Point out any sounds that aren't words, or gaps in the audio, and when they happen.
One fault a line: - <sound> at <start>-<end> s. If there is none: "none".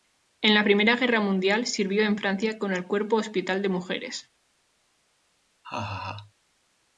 - laugh at 5.6-6.3 s